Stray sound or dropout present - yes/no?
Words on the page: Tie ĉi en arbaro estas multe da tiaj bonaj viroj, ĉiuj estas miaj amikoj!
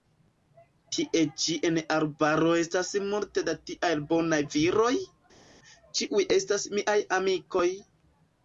no